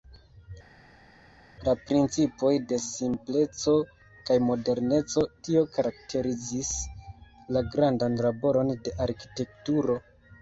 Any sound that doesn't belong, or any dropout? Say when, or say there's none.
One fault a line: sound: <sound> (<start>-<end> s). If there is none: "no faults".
no faults